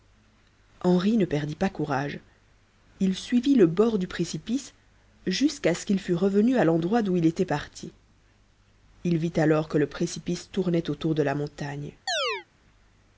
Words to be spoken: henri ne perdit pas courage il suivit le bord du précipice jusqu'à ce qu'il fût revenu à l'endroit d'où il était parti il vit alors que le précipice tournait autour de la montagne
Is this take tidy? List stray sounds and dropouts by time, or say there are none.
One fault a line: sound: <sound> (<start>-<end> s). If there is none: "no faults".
sound: chirp (12.1-12.5 s)